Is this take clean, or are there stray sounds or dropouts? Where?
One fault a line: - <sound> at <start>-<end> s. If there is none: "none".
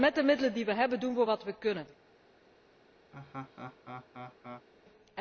- laugh at 3.1-4.7 s